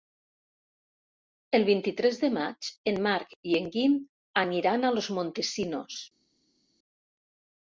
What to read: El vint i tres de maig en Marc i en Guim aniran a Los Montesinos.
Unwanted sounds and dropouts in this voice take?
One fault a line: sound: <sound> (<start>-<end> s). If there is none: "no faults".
no faults